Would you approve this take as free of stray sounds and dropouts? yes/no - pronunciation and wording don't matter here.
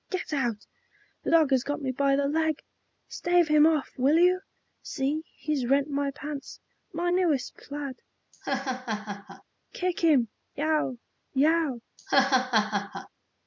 no